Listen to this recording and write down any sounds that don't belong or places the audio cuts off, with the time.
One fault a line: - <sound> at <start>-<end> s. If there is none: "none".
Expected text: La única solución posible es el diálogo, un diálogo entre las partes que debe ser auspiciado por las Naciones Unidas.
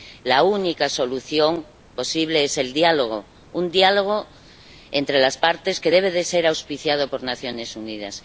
none